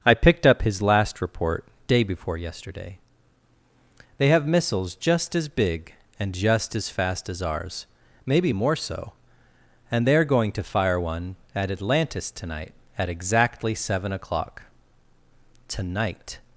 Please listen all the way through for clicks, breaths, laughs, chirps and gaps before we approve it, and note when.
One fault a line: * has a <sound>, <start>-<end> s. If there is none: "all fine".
all fine